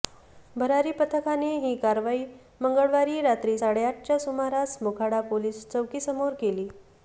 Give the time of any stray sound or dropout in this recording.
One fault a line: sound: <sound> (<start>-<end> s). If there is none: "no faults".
no faults